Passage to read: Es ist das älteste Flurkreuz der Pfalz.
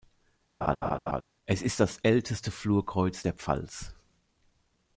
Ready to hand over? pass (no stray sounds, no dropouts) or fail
fail